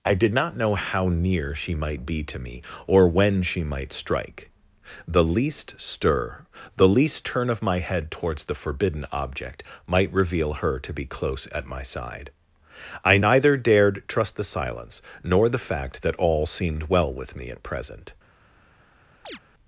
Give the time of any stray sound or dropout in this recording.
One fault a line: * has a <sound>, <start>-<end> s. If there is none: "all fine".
* has a chirp, 19.2-19.4 s